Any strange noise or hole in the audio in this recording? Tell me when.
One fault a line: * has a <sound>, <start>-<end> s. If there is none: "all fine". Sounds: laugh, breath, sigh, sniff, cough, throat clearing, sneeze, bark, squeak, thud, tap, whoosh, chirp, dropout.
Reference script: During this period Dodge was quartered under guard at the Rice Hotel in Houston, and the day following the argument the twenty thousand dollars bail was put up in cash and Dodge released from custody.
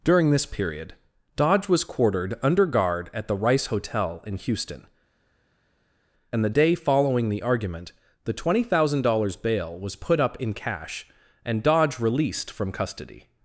all fine